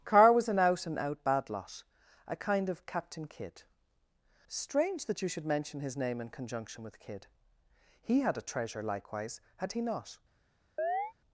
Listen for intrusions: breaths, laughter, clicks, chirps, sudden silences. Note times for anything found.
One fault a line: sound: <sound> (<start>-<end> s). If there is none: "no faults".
sound: chirp (10.8-11.1 s)